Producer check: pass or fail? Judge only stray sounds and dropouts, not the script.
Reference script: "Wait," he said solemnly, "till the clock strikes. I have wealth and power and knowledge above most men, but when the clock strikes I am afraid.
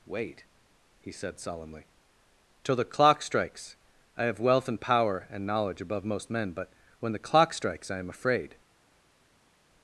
pass